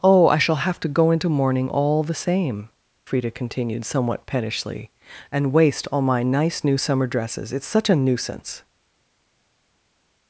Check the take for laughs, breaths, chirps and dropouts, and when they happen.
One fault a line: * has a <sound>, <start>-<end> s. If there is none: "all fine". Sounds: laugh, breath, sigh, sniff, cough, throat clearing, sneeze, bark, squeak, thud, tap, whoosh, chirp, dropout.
all fine